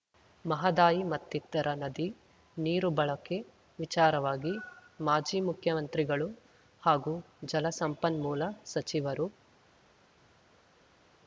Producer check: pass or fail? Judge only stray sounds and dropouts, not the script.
pass